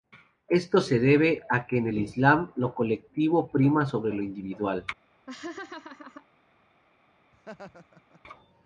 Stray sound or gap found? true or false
true